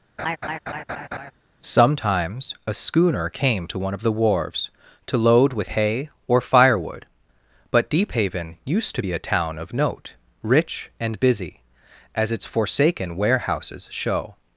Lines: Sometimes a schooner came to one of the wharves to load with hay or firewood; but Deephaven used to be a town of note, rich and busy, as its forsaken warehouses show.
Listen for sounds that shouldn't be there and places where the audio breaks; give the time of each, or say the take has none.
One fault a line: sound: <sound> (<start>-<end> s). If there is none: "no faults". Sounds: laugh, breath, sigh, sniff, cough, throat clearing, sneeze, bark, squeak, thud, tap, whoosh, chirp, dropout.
sound: laugh (0.2-1.3 s)